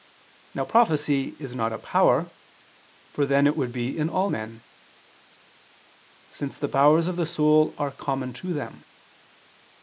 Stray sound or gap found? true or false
false